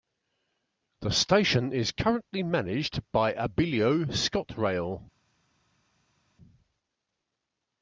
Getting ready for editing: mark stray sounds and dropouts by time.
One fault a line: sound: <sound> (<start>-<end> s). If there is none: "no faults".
no faults